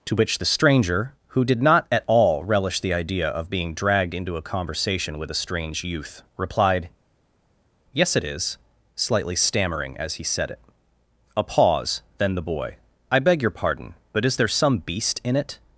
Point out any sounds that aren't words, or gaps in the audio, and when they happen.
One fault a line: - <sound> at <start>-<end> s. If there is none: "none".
none